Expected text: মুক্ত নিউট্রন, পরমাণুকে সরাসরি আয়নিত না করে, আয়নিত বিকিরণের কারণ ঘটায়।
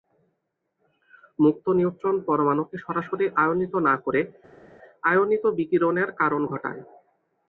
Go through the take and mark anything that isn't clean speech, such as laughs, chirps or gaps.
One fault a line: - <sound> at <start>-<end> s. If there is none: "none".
none